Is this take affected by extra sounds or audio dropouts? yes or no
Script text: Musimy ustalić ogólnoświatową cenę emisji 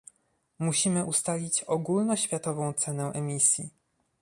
no